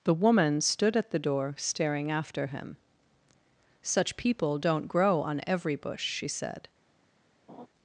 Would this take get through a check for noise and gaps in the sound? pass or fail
fail